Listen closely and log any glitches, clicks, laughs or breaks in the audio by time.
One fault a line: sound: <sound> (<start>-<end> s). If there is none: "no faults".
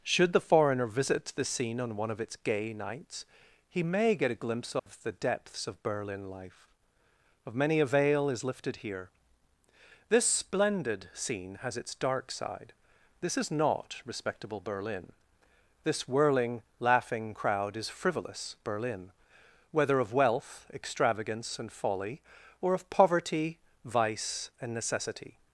sound: dropout (4.8-4.9 s)